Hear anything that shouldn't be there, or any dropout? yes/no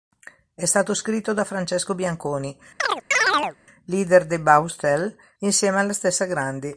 yes